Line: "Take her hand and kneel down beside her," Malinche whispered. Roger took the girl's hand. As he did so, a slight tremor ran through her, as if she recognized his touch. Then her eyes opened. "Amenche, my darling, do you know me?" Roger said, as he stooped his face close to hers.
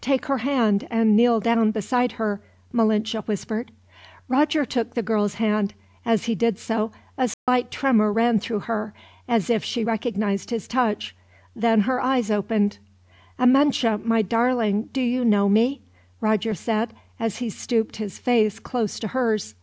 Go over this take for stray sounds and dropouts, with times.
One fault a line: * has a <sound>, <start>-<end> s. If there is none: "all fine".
* has a dropout, 7.3-7.5 s